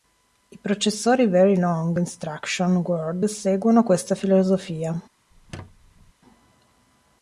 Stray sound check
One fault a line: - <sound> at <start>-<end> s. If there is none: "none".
- squeak at 5.3-6.1 s